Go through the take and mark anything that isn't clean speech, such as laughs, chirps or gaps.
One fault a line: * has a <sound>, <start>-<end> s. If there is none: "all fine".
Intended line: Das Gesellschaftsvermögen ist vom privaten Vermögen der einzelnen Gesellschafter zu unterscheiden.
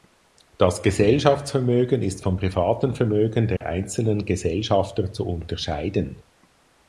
* has a dropout, 3.6-3.6 s